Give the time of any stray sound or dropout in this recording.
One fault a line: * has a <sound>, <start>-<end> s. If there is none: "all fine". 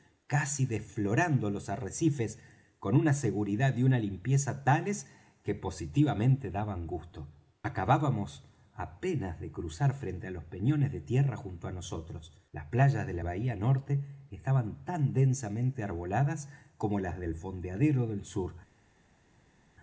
all fine